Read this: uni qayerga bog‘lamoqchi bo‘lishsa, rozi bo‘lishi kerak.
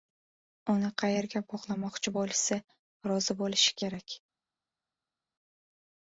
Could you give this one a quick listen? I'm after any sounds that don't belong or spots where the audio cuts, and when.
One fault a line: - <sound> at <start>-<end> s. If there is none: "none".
none